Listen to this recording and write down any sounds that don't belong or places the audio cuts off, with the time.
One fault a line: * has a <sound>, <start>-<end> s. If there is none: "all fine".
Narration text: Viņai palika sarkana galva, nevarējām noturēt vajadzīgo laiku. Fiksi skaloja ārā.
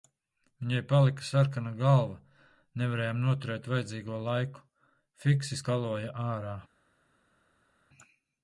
all fine